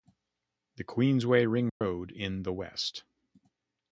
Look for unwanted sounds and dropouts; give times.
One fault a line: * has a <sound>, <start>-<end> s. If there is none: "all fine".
* has a dropout, 1.7-1.8 s